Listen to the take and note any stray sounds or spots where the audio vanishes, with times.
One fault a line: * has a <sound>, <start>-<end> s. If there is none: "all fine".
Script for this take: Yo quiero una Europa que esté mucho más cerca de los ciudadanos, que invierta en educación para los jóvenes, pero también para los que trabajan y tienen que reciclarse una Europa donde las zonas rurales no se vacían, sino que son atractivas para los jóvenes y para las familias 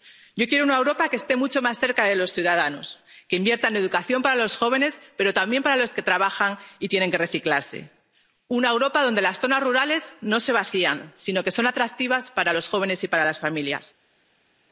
all fine